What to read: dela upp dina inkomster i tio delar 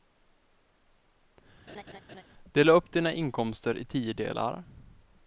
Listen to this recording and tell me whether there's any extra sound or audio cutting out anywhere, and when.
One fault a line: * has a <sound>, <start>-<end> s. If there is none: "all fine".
* has a laugh, 1.7-2.2 s